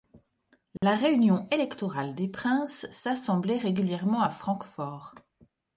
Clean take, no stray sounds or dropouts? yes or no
no